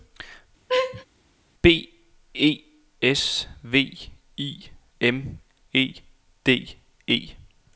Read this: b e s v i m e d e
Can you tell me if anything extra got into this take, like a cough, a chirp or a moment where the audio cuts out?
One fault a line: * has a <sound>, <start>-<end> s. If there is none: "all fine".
* has a laugh, 0.7-1.1 s